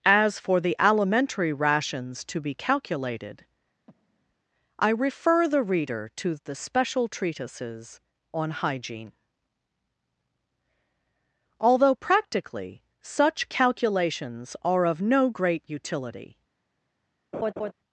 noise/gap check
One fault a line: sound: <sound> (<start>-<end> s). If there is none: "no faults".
sound: breath (3.9-4.4 s)
sound: laugh (17.3-17.7 s)